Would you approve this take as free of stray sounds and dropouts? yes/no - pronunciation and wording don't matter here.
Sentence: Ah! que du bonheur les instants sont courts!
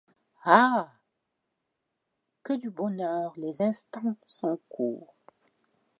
yes